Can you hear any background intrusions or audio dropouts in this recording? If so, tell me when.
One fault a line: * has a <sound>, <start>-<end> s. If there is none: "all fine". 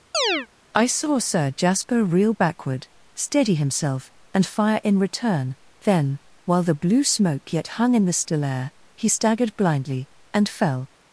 * has a chirp, 0.1-0.5 s